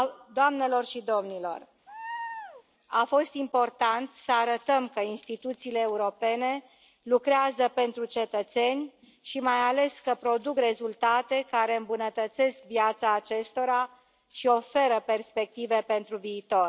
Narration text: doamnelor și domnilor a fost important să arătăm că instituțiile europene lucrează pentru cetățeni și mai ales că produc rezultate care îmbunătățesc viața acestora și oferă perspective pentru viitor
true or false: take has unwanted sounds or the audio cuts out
true